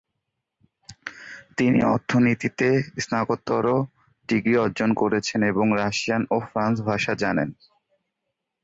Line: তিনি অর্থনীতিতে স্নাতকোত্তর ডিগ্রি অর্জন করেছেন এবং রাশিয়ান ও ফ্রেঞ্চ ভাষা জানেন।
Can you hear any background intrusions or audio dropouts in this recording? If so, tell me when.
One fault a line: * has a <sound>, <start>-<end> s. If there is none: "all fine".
all fine